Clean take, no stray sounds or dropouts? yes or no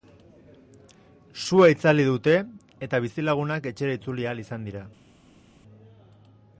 yes